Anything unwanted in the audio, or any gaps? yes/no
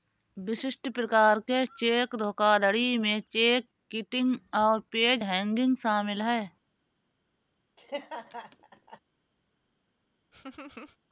yes